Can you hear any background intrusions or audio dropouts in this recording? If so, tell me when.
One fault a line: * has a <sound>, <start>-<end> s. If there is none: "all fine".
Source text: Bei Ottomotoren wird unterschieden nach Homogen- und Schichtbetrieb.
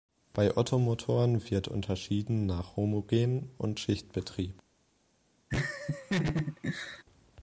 * has a laugh, 5.5-7.0 s